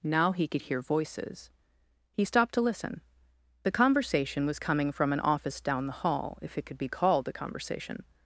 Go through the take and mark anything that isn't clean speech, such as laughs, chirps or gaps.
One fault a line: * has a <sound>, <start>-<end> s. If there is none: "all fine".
all fine